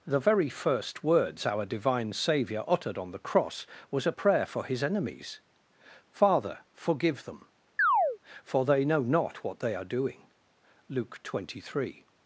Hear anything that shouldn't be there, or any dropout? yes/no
yes